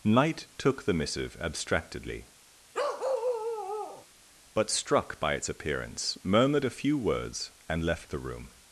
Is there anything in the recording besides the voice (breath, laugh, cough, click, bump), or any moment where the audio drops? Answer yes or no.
yes